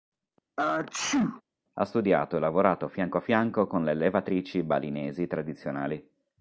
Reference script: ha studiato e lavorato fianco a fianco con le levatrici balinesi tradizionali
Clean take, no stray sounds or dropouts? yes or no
no